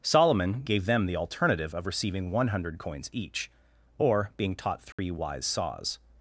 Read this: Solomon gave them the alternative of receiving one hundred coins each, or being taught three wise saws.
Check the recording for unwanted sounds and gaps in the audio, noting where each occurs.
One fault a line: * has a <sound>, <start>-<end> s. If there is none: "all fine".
* has a dropout, 4.9-5.0 s